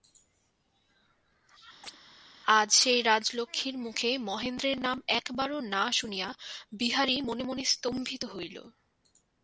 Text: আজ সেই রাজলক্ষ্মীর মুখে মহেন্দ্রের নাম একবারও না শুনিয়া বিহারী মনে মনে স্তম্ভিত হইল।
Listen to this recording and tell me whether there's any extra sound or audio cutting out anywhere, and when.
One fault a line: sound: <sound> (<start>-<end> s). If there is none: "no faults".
sound: chirp (1.8-2.0 s)